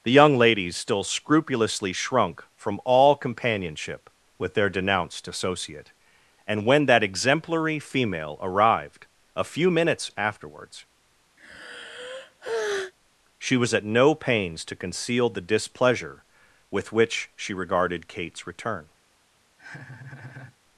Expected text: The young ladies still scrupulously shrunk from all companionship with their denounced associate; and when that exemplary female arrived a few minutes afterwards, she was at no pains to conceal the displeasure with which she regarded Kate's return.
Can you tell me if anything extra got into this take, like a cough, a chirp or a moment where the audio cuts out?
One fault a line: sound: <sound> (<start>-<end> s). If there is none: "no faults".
sound: sigh (11.4-12.9 s)
sound: laugh (19.6-20.6 s)